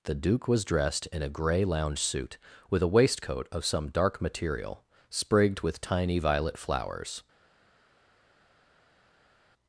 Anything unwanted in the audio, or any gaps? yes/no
no